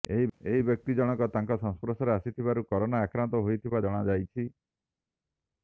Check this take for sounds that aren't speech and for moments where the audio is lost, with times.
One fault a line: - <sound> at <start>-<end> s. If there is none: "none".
none